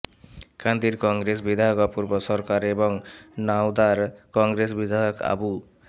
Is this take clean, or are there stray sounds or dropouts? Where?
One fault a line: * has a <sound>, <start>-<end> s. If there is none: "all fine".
all fine